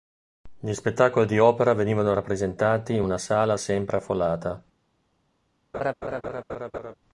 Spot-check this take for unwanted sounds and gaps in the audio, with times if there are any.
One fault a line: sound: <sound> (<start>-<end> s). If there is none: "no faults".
sound: laugh (5.7-6.9 s)